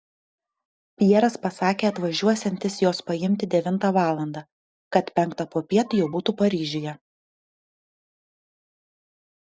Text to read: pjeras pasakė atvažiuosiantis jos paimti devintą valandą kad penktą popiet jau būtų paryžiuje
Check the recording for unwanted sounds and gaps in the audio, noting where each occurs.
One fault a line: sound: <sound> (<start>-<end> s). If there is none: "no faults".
no faults